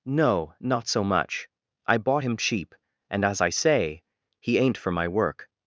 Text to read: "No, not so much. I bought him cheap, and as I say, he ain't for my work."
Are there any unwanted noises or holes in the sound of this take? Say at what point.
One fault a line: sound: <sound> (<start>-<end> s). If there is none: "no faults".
no faults